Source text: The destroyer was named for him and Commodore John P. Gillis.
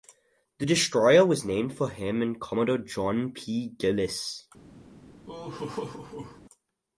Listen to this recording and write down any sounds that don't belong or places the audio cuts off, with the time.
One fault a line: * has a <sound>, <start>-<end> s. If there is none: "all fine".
* has a laugh, 5.3-6.4 s